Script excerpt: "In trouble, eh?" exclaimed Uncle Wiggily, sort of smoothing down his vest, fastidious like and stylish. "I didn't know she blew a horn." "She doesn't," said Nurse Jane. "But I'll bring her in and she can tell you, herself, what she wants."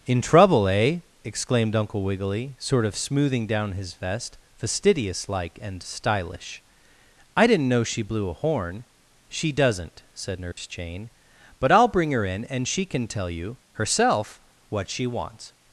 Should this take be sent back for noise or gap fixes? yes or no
yes